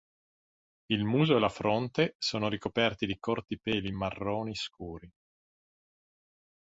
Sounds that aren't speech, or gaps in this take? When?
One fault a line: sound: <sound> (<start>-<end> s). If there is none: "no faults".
no faults